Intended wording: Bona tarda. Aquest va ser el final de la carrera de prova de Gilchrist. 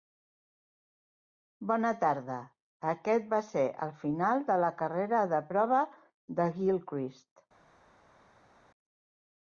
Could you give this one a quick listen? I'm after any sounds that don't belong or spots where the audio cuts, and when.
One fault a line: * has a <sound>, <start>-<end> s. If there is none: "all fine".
all fine